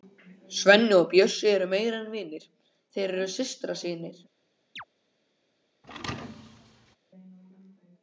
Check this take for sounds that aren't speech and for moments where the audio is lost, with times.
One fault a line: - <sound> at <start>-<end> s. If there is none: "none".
- chirp at 4.8-4.8 s
- thud at 5.8-7.0 s